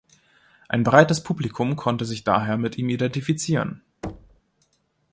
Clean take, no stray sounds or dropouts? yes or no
no